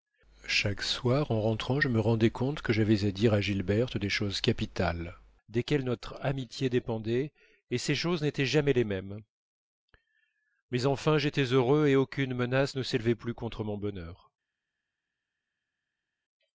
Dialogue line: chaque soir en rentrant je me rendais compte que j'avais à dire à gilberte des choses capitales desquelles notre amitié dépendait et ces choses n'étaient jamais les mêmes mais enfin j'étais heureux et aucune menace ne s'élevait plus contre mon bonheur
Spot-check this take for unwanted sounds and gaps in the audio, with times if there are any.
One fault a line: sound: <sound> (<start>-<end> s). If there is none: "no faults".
no faults